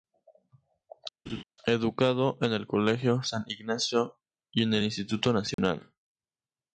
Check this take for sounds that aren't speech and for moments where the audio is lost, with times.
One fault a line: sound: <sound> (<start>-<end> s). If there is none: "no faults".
sound: laugh (1.3-1.4 s)
sound: dropout (5.5-5.6 s)